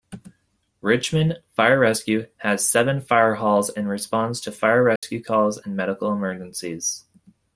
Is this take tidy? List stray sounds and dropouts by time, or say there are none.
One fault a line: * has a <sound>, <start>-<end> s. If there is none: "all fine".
* has a dropout, 5.0-5.0 s